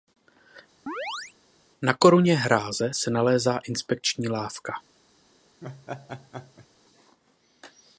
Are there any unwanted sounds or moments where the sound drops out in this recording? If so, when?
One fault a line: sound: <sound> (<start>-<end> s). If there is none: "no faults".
sound: chirp (0.9-1.3 s)
sound: laugh (5.6-6.7 s)